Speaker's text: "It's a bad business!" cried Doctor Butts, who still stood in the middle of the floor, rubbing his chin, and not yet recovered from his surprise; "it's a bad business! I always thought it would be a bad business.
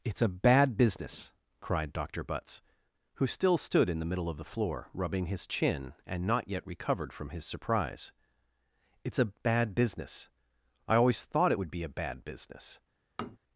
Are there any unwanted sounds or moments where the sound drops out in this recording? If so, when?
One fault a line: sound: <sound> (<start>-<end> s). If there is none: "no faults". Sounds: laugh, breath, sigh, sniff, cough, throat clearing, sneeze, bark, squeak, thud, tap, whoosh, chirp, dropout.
sound: tap (13.2-13.4 s)